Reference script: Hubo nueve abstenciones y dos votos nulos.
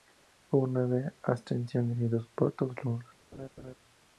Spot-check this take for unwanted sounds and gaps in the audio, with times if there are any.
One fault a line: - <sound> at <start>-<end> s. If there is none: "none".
- laugh at 3.3-3.7 s